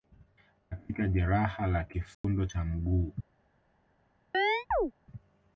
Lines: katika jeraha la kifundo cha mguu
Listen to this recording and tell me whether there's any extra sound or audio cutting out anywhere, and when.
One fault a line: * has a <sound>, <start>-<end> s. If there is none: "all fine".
* has a dropout, 2.1-2.2 s
* has a chirp, 4.3-4.9 s